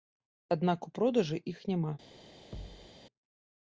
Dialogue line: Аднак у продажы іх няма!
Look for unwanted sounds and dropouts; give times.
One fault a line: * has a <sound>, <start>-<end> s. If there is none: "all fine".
* has a thud, 2.5-2.9 s